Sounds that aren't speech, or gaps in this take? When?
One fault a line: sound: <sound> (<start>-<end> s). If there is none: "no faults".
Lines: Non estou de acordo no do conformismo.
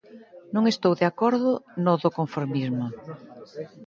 no faults